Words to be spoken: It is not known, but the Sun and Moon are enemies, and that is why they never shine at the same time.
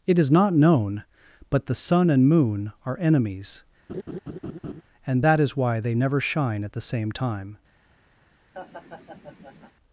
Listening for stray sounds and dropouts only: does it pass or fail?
fail